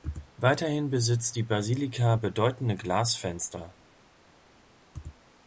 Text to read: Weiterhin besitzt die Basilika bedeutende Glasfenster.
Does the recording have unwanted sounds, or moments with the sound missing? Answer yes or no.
no